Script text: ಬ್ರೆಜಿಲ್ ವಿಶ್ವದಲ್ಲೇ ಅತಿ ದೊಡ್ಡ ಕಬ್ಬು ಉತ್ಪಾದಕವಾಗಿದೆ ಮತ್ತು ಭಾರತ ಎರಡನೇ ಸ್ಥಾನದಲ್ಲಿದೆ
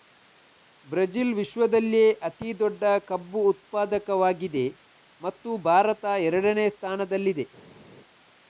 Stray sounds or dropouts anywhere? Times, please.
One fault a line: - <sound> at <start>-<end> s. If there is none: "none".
none